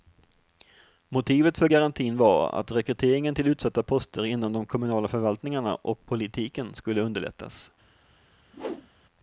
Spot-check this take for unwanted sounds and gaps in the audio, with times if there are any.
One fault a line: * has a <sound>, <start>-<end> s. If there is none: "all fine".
* has a whoosh, 8.5-8.9 s